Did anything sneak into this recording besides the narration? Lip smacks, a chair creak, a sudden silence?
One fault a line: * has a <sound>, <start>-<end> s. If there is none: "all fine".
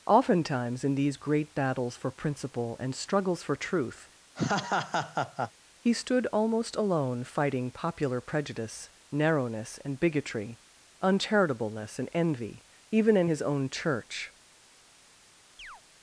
* has a laugh, 4.4-5.5 s
* has a chirp, 15.6-15.8 s